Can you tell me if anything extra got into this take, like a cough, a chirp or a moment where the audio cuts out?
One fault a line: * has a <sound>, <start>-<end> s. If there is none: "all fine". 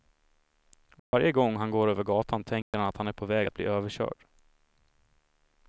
* has a dropout, 1.0-1.1 s
* has a dropout, 2.6-2.7 s